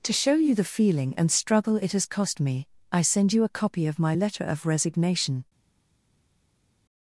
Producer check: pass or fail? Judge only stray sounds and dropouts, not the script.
pass